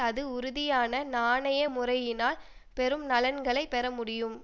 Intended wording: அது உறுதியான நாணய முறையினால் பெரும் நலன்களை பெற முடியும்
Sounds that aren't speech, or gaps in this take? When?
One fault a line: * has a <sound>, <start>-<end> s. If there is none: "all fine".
all fine